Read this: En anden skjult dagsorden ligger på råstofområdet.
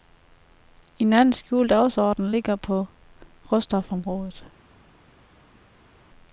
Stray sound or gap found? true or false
false